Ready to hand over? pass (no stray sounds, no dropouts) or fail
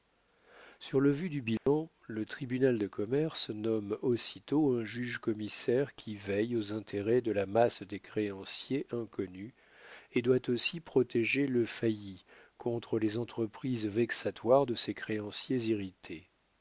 fail